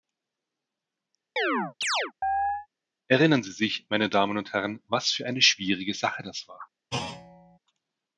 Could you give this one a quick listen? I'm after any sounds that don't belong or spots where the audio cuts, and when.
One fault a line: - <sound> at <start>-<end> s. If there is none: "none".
- chirp at 1.4-2.7 s
- thud at 6.9-7.6 s